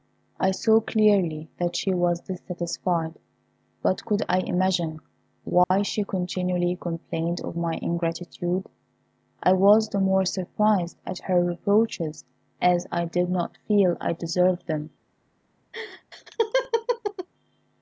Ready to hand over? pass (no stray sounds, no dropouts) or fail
fail